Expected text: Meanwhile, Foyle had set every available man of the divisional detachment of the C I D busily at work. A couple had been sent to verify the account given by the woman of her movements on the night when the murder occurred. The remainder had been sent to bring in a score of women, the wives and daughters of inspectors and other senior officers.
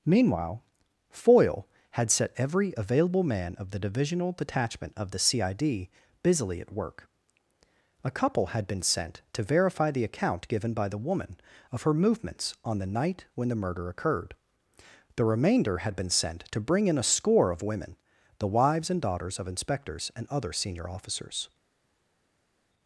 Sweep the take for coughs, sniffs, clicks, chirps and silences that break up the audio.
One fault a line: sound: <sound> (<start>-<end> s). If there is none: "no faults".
no faults